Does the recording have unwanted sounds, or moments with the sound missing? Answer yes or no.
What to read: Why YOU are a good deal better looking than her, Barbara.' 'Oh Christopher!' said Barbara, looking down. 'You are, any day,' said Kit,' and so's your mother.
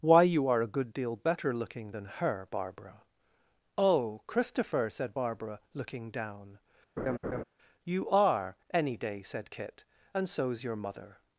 yes